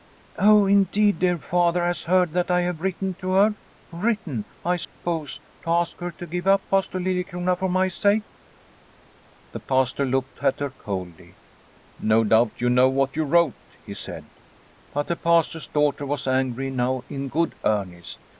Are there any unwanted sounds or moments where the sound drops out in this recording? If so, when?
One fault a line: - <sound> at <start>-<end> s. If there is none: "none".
- dropout at 4.8-5.0 s